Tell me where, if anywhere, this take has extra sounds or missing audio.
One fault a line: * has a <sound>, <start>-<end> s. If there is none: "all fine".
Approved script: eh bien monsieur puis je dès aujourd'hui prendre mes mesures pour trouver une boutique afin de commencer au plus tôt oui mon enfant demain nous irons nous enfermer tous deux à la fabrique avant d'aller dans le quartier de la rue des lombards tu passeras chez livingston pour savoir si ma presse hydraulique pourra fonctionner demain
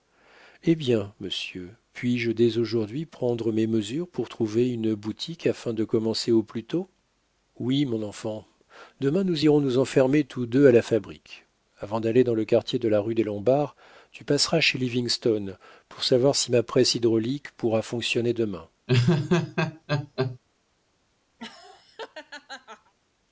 * has a laugh, 18.9-20.4 s
* has a laugh, 21.4-22.9 s